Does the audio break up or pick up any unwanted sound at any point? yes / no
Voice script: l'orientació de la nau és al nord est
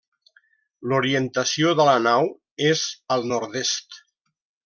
no